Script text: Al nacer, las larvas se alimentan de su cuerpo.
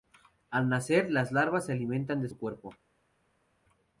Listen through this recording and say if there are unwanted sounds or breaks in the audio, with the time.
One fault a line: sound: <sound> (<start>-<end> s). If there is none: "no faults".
no faults